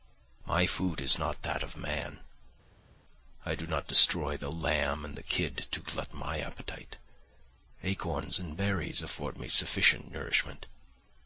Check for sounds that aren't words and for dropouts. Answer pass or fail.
pass